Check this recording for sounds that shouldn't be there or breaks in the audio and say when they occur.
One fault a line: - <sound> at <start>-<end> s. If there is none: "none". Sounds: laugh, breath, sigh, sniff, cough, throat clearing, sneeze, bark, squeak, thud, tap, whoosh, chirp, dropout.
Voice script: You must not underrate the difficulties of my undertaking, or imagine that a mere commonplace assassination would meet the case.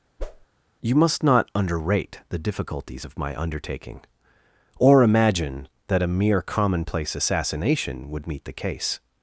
- whoosh at 0.2-0.5 s